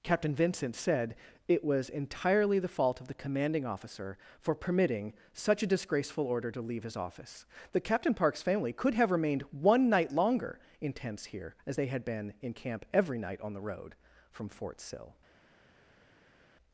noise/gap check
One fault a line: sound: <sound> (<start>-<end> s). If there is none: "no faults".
no faults